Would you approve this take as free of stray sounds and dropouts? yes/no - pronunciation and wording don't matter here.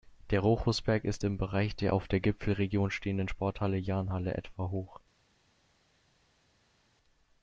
yes